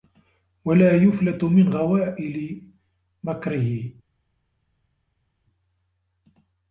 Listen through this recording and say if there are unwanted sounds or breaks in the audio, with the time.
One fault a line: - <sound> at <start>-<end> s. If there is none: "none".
none